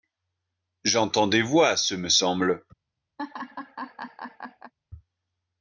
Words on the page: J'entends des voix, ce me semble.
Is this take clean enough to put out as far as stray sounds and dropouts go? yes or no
no